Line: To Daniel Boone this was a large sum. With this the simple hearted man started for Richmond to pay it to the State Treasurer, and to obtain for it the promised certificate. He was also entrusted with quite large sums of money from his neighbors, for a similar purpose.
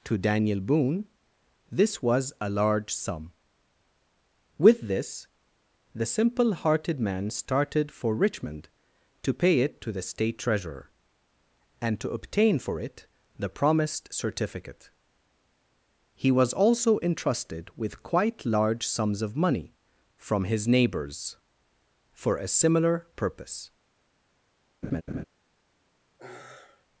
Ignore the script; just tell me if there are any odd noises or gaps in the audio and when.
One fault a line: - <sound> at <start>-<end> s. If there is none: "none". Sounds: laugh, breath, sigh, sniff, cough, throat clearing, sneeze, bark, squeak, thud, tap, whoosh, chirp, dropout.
- laugh at 24.8-25.2 s
- sigh at 26.2-26.9 s